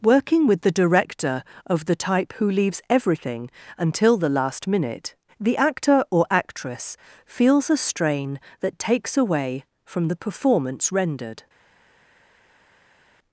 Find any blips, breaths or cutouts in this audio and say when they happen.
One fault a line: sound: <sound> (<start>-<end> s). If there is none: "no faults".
no faults